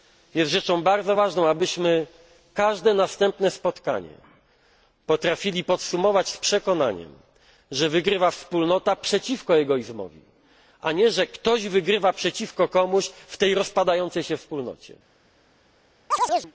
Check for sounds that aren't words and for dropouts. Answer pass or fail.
fail